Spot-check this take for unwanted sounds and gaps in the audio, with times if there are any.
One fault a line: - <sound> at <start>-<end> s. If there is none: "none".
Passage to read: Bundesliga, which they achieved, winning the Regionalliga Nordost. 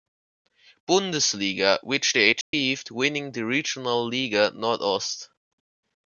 - dropout at 2.4-2.5 s